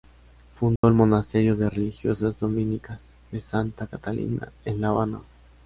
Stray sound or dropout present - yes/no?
yes